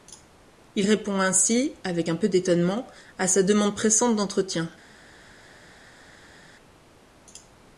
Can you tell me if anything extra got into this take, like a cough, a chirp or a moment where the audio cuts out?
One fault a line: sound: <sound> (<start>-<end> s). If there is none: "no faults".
no faults